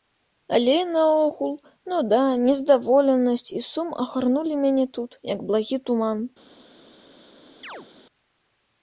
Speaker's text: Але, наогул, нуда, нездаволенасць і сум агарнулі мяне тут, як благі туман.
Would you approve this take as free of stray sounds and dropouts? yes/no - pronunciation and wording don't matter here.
no